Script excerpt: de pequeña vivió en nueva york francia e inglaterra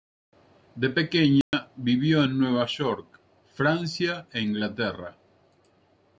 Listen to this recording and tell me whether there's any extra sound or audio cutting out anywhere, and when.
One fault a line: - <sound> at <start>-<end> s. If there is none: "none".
- dropout at 1.4-1.5 s